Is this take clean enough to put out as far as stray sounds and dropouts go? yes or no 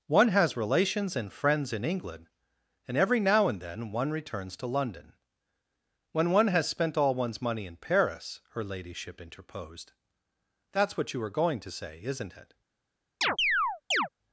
no